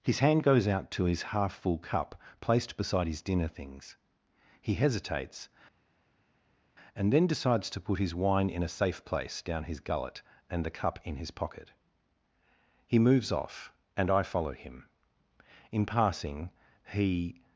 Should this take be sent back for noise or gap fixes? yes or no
no